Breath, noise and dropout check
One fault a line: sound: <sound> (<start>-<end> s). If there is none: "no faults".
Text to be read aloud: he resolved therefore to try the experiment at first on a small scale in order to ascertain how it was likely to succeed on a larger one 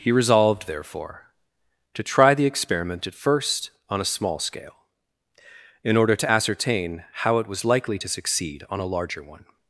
no faults